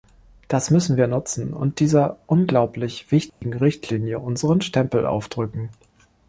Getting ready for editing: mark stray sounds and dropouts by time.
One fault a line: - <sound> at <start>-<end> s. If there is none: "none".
- dropout at 3.3-3.4 s